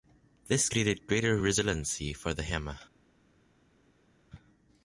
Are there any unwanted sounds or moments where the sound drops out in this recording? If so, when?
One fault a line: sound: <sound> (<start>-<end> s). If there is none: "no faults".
no faults